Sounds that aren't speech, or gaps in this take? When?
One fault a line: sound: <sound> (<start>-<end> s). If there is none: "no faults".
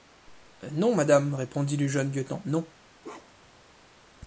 sound: bark (3.0-3.6 s)